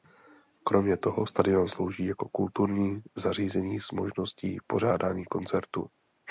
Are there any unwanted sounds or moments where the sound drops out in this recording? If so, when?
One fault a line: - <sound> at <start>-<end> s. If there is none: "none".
none